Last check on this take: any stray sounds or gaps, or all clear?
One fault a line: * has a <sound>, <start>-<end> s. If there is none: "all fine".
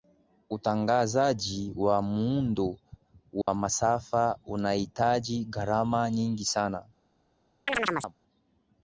* has a dropout, 3.4-3.5 s
* has a chirp, 7.7-8.1 s